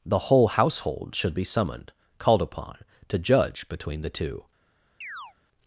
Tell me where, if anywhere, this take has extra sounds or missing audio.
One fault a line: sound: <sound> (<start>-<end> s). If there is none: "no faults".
sound: chirp (5.0-5.3 s)